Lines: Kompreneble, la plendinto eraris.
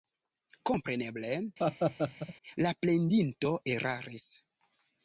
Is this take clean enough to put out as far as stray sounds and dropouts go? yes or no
no